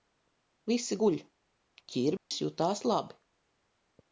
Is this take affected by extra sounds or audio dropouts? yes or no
yes